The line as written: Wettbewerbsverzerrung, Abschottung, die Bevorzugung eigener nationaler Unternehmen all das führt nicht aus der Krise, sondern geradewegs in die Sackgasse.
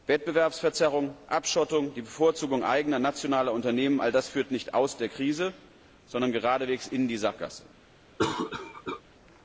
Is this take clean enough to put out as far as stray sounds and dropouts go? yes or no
no